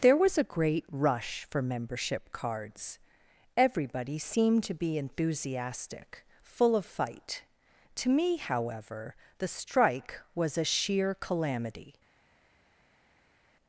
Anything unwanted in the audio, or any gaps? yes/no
no